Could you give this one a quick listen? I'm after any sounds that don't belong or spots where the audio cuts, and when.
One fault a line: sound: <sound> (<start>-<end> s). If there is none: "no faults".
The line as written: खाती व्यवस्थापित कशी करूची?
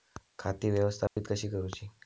sound: dropout (1.1-1.2 s)